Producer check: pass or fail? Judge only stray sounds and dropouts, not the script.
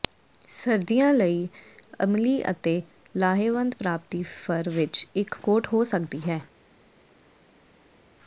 pass